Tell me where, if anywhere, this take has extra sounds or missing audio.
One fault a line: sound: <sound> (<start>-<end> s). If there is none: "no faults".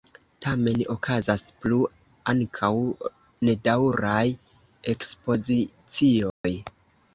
sound: dropout (6.3-6.4 s)